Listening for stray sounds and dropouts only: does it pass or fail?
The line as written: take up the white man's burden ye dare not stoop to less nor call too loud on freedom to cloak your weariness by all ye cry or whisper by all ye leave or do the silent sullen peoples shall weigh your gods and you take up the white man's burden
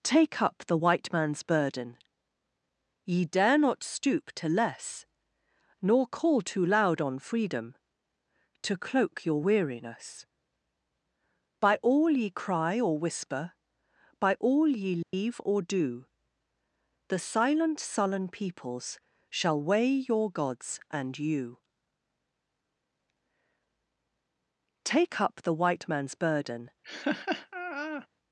fail